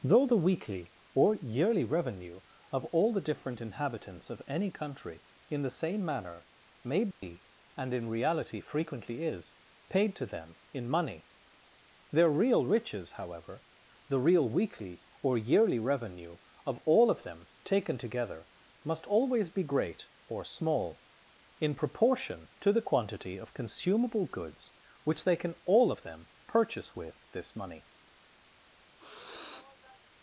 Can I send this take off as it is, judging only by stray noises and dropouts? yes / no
no